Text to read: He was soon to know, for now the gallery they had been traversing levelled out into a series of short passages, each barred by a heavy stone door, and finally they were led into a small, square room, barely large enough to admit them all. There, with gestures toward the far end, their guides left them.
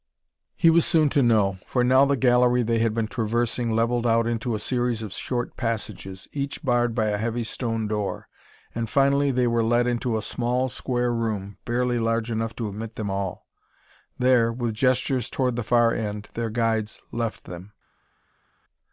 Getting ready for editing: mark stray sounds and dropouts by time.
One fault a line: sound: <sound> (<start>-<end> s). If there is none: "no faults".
no faults